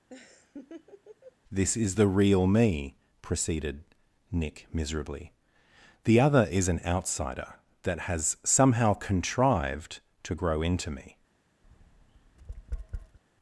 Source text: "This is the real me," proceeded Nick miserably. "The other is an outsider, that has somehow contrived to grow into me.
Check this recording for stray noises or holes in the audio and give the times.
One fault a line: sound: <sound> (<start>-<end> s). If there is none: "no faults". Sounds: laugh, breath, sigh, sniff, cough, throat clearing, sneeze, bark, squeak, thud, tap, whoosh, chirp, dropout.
sound: laugh (0.1-1.4 s)
sound: tap (11.6-13.2 s)